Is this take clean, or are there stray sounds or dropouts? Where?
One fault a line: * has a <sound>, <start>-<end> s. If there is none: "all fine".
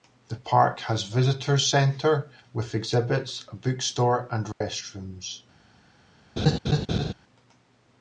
* has a dropout, 4.5-4.6 s
* has a laugh, 6.4-7.1 s